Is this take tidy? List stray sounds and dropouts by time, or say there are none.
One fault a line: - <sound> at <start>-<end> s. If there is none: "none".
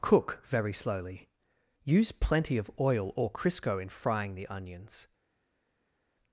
none